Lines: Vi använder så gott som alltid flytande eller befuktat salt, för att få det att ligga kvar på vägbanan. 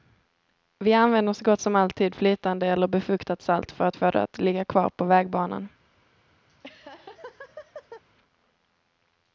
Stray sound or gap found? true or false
true